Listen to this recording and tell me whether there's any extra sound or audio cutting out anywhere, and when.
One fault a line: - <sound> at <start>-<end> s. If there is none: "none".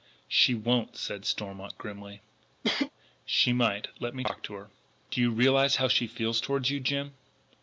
- cough at 2.6-2.9 s